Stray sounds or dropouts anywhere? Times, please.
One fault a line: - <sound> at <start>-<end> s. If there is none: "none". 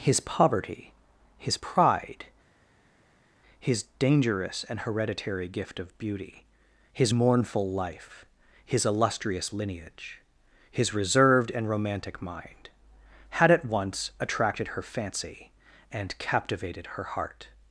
none